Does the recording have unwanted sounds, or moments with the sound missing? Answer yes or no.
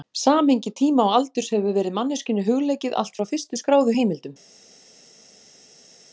no